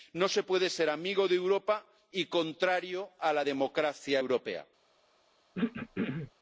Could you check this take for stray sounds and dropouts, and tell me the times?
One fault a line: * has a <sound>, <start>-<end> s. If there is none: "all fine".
* has a throat clearing, 5.5-6.3 s